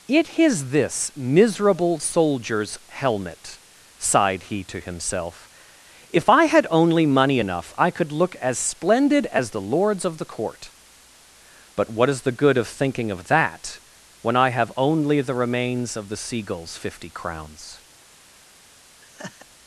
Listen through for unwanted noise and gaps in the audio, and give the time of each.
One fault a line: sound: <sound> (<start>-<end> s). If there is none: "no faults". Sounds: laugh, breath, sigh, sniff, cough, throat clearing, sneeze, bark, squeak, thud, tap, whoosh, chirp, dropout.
sound: laugh (19.0-19.5 s)